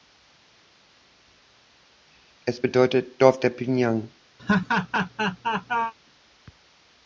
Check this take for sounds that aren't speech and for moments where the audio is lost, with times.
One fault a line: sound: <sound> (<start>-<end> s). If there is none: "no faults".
sound: laugh (4.4-5.9 s)